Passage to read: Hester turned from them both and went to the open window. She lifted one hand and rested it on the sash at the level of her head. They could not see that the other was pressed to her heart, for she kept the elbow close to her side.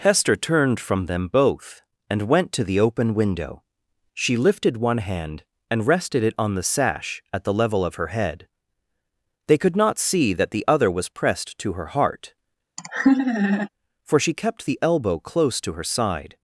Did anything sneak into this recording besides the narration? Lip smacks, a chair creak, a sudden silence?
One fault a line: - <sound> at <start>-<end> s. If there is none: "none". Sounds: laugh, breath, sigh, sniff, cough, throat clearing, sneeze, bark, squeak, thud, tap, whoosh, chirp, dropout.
- laugh at 12.8-13.7 s